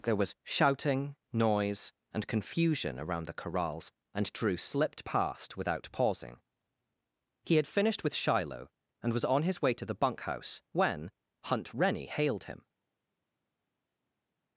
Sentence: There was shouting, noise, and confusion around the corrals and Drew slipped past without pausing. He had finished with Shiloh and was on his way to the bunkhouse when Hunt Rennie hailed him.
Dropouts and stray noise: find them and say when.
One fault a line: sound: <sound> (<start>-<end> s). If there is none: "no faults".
no faults